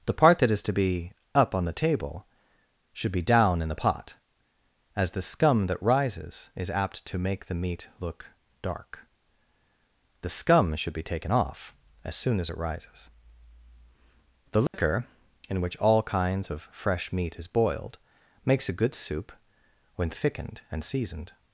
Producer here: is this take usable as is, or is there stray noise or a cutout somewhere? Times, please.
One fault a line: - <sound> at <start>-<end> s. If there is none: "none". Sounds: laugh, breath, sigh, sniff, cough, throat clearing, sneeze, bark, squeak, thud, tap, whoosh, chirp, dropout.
- dropout at 14.7-14.7 s